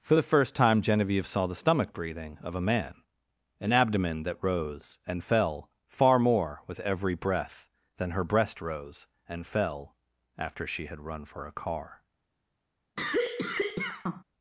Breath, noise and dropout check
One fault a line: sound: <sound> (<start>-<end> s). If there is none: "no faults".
sound: cough (13.0-14.2 s)